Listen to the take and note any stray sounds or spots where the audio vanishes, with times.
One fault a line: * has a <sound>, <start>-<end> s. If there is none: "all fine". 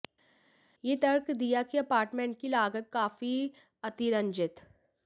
all fine